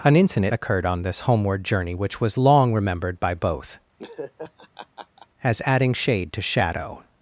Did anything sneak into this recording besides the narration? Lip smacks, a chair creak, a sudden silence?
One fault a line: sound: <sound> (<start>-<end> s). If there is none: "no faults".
sound: laugh (4.0-5.3 s)